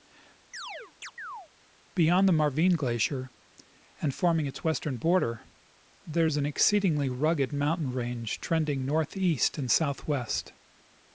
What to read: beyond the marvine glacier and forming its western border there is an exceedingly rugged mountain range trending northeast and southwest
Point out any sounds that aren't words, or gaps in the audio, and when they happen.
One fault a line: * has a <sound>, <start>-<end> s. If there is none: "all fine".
* has a chirp, 0.5-1.5 s